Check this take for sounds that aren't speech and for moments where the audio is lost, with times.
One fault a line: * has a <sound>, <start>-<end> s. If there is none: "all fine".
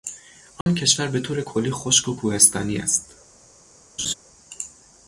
* has a dropout, 0.6-0.7 s
* has a laugh, 4.0-4.1 s